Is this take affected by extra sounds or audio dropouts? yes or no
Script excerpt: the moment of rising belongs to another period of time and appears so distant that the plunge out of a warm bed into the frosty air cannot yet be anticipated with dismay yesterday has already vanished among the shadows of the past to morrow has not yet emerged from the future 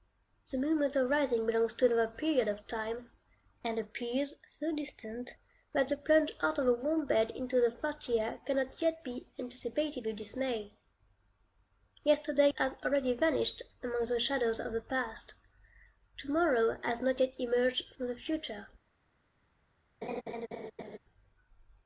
yes